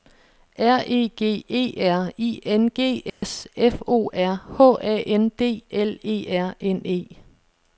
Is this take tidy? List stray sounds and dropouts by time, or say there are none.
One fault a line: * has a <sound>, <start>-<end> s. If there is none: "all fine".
* has a dropout, 3.1-3.2 s